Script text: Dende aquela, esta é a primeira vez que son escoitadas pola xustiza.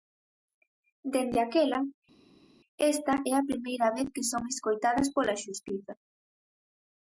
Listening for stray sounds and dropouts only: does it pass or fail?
pass